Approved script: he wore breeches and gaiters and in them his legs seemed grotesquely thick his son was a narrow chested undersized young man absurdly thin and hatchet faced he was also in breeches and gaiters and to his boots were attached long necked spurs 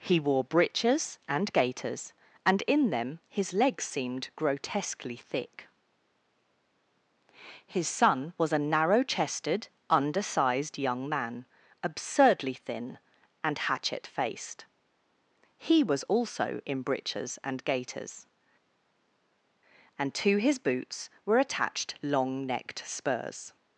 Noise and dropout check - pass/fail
pass